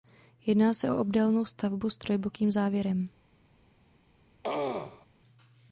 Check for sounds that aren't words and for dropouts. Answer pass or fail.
fail